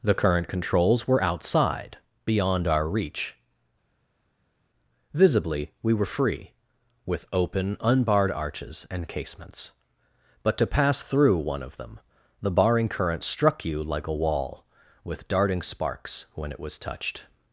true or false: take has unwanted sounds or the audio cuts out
false